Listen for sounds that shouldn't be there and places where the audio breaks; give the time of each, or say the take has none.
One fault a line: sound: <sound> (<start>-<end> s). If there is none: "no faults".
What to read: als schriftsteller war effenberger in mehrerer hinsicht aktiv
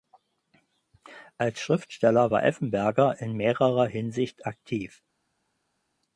no faults